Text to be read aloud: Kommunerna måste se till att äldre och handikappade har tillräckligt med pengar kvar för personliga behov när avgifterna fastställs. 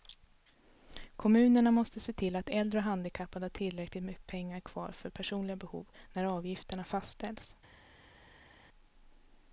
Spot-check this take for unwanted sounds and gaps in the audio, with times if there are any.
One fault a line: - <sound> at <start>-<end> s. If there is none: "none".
none